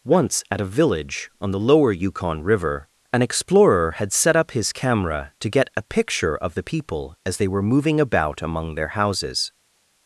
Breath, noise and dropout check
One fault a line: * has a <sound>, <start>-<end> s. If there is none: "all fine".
all fine